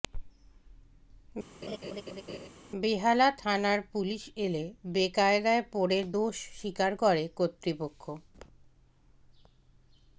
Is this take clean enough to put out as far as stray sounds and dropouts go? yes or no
no